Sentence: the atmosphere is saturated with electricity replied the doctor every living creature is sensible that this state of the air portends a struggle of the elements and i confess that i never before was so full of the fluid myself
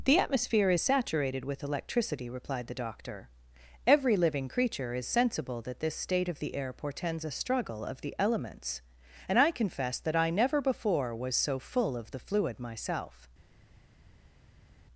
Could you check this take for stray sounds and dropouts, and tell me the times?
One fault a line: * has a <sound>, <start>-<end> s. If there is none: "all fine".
all fine